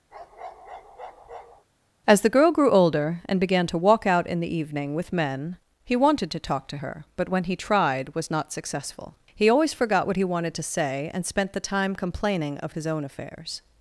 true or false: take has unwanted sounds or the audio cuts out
true